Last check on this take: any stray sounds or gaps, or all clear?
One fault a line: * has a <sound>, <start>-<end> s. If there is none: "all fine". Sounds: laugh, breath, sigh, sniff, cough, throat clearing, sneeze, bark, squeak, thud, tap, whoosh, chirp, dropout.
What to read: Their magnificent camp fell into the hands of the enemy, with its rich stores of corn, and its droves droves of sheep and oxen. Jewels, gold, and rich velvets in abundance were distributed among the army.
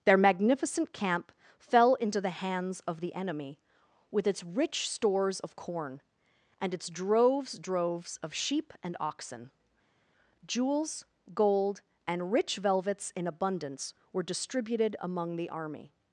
all fine